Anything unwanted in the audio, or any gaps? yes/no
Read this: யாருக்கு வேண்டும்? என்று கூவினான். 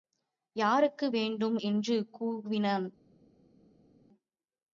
no